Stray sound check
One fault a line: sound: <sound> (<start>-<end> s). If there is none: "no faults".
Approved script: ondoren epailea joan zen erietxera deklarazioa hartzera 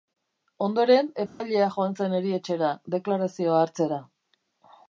sound: dropout (1.3-1.4 s)